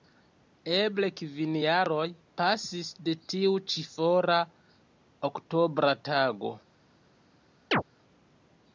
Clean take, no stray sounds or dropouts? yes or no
no